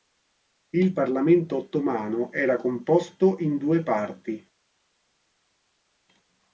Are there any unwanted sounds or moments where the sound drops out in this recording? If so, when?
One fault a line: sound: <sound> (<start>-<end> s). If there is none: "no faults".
no faults